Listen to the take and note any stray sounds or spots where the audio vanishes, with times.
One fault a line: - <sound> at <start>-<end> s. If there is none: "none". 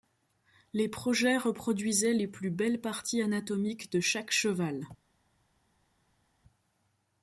none